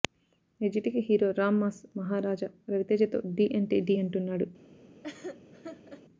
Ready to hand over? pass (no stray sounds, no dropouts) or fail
fail